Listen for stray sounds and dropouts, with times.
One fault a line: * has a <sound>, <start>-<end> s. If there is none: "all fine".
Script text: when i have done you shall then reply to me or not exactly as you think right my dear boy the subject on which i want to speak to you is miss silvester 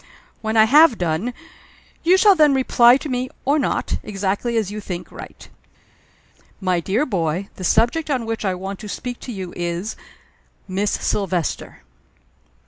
all fine